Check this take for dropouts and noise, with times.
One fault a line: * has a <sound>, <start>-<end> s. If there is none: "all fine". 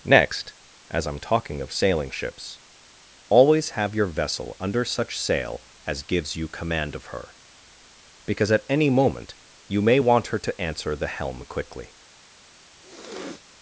* has a sniff, 12.8-13.4 s